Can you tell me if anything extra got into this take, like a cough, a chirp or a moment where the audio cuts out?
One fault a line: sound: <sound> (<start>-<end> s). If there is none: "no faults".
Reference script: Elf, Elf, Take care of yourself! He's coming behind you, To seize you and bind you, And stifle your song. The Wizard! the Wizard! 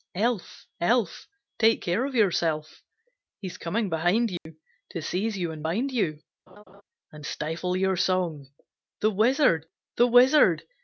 sound: dropout (4.4-4.5 s)
sound: laugh (6.5-6.8 s)